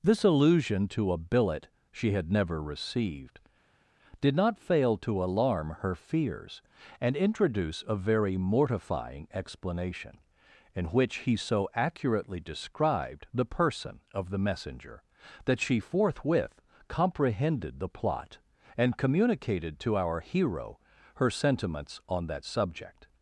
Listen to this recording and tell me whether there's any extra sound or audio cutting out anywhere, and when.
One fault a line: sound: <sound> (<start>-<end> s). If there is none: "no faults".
no faults